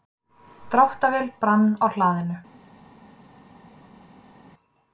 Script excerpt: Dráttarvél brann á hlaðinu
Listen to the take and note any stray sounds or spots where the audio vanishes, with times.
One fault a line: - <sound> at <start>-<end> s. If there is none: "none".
none